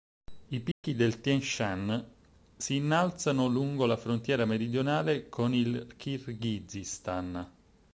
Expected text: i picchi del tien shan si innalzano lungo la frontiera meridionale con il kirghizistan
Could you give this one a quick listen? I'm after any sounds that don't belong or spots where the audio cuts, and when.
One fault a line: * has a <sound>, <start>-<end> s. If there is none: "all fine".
* has a dropout, 0.7-0.8 s